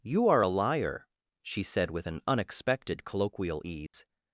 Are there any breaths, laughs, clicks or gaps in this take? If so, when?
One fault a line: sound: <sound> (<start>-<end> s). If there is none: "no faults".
sound: dropout (3.9-3.9 s)